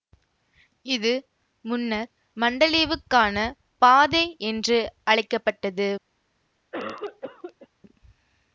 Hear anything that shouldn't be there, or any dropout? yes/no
yes